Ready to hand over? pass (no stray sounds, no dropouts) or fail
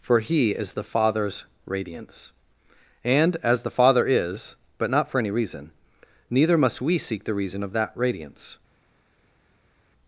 pass